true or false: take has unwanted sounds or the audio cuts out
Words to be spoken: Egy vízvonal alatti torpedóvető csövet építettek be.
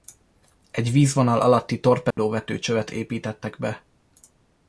true